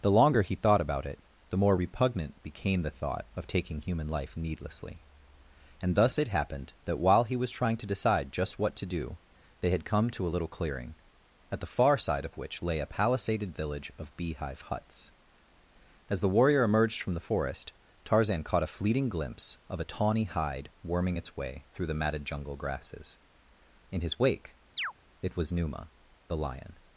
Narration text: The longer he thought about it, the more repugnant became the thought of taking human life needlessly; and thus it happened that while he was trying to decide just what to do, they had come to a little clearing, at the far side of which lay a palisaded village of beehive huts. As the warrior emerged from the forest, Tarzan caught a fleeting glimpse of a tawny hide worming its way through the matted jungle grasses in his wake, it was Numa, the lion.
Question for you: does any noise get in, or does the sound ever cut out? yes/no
yes